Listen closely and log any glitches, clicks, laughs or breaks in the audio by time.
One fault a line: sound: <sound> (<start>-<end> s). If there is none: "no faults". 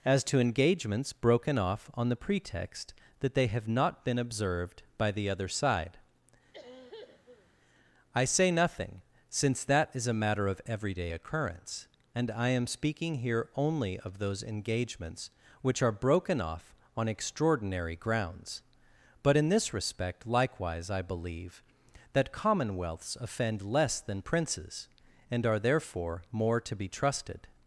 sound: cough (6.5-7.5 s)